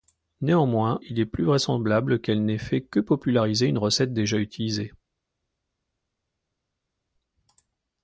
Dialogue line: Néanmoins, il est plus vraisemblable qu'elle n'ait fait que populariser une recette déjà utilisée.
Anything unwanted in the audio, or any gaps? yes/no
no